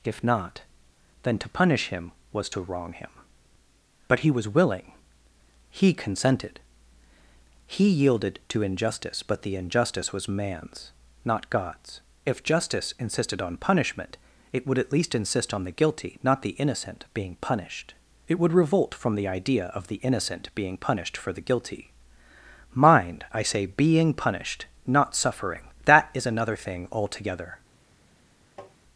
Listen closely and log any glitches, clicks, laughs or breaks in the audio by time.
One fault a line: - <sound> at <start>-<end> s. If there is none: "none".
- tap at 28.6-28.8 s